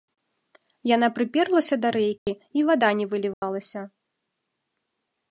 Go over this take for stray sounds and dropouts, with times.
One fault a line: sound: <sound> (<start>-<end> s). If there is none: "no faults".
sound: dropout (2.2-2.3 s)
sound: dropout (3.3-3.4 s)